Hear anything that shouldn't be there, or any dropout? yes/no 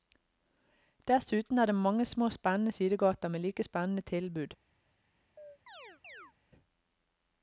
yes